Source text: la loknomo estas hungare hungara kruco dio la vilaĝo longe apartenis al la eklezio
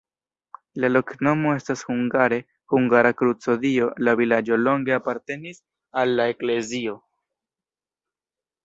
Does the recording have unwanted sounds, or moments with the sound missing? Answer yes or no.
no